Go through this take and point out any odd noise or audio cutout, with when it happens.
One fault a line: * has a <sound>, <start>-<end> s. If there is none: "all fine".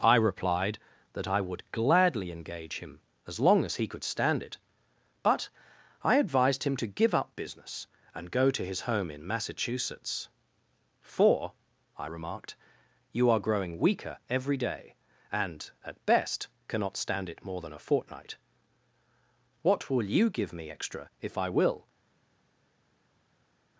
all fine